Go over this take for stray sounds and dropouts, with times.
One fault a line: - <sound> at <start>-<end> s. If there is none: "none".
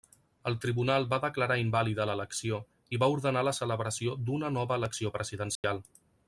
- dropout at 5.6-5.6 s